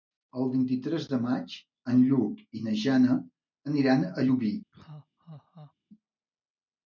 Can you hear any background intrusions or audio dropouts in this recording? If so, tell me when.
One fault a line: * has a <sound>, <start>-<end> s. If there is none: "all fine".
* has a laugh, 4.7-5.7 s